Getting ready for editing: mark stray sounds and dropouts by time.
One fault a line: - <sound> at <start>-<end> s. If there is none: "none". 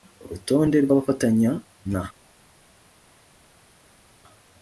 none